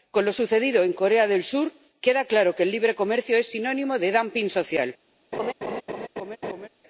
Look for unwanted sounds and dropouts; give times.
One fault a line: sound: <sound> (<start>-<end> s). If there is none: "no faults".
sound: laugh (5.3-6.7 s)